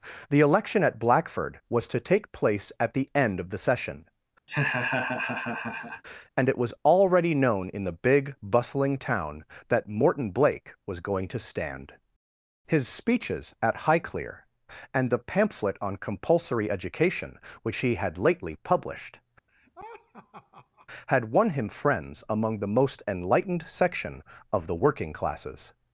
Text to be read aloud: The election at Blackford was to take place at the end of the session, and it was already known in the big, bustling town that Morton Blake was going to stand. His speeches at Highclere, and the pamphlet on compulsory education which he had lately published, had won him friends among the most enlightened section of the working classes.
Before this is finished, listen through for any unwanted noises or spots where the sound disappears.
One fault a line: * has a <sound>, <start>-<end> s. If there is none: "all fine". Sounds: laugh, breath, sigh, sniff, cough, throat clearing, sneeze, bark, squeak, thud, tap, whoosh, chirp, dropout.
* has a laugh, 4.5-6.0 s
* has a laugh, 19.5-20.9 s